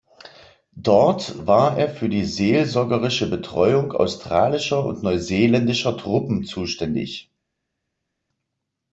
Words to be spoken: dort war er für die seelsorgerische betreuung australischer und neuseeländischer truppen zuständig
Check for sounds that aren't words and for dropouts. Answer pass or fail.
pass